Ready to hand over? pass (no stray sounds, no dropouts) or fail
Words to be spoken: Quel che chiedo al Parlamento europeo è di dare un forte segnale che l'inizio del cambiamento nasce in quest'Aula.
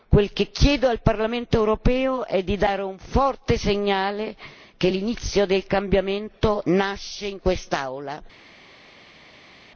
pass